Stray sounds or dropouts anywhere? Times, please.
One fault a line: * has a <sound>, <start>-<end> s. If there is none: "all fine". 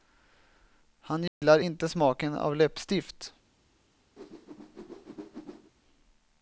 * has a dropout, 1.3-1.4 s
* has a whoosh, 4.2-5.7 s